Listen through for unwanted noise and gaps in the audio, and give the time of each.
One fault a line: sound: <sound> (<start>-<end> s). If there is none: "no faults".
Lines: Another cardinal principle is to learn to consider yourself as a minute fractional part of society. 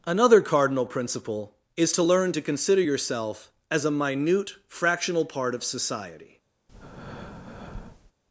sound: breath (6.7-8.1 s)